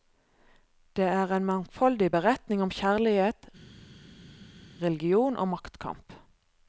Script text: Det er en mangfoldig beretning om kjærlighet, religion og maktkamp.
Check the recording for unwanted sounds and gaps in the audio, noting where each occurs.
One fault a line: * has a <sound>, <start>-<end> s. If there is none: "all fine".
all fine